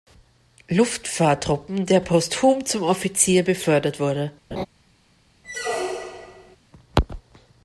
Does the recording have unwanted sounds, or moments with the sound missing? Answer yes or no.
yes